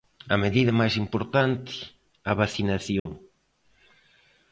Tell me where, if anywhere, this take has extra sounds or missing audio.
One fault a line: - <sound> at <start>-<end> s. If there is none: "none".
- dropout at 3.0-3.1 s